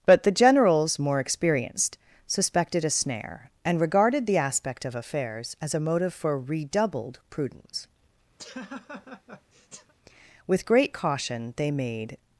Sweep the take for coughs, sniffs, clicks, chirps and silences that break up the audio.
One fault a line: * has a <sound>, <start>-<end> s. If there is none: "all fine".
* has a laugh, 8.4-9.9 s